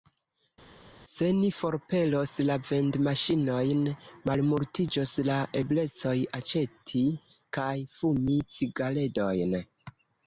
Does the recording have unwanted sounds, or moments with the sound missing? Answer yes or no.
no